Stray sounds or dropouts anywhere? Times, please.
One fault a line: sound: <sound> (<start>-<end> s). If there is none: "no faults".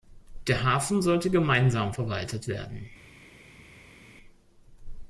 no faults